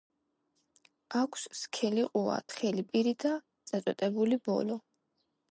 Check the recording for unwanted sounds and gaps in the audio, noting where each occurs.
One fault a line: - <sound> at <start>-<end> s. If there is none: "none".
none